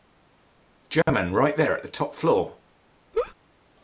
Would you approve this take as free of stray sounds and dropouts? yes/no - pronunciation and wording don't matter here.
no